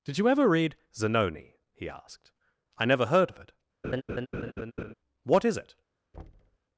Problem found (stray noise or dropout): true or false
true